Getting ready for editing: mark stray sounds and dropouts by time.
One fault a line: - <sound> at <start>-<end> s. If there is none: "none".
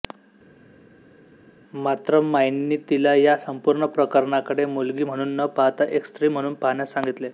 none